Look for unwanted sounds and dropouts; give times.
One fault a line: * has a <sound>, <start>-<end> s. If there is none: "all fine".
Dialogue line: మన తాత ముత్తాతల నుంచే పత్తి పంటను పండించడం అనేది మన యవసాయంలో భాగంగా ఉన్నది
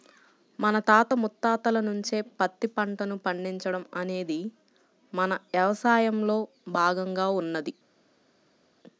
all fine